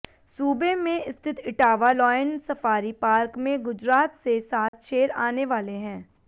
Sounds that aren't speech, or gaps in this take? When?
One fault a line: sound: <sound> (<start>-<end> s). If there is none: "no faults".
sound: dropout (4.7-4.7 s)